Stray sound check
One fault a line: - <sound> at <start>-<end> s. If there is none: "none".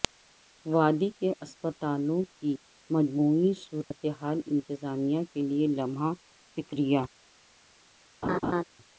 - dropout at 3.8-3.9 s
- laugh at 8.2-8.6 s